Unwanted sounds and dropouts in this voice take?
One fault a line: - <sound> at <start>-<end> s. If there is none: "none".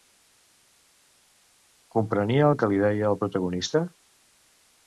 none